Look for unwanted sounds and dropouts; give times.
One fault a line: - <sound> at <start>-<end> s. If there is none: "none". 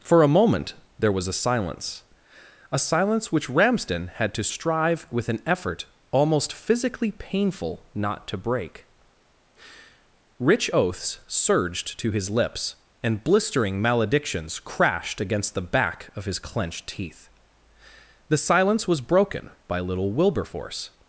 none